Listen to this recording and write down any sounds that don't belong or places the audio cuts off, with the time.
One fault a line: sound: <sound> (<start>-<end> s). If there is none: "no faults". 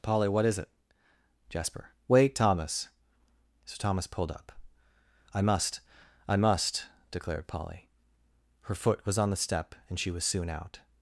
no faults